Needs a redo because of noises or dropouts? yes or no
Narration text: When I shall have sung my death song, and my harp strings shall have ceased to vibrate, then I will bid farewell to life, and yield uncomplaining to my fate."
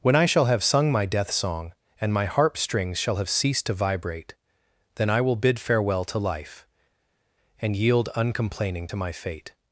no